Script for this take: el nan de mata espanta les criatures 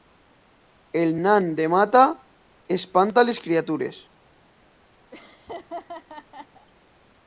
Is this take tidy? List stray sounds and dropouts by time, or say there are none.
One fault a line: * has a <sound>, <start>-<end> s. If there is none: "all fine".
* has a laugh, 5.1-6.7 s